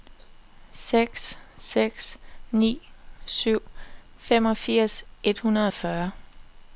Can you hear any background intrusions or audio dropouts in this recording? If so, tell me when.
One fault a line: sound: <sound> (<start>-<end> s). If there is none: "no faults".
no faults